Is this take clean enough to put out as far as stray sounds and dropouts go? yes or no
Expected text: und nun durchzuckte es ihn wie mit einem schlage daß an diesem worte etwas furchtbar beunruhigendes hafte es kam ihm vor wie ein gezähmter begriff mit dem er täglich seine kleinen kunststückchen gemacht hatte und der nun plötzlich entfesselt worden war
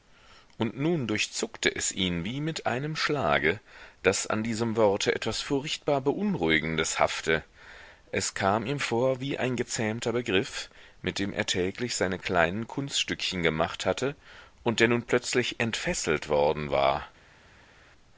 yes